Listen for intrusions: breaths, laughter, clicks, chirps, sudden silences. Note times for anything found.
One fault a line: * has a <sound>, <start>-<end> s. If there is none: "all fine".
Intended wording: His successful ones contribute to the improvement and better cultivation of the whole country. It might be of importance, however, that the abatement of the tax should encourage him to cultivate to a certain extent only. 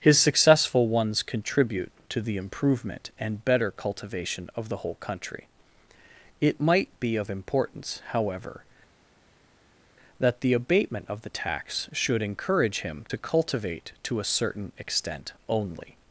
all fine